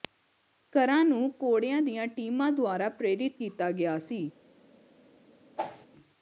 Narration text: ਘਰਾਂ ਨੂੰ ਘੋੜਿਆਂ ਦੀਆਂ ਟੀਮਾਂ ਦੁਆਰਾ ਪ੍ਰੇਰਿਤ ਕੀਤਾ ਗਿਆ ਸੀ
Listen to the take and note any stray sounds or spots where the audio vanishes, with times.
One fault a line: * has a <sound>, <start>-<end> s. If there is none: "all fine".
* has a whoosh, 5.6-5.9 s